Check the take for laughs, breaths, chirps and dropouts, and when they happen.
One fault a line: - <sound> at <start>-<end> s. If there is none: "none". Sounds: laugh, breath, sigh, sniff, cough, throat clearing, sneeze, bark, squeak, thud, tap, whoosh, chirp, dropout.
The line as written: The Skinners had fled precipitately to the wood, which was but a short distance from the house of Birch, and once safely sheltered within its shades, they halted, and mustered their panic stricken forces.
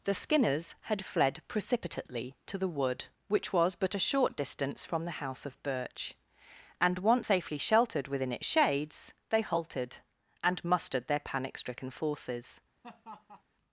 - laugh at 12.8-13.4 s